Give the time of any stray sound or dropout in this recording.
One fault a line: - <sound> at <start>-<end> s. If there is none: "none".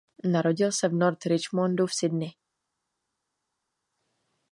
none